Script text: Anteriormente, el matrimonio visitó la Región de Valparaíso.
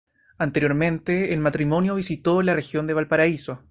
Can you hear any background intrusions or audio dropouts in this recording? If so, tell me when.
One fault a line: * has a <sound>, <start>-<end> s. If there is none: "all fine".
all fine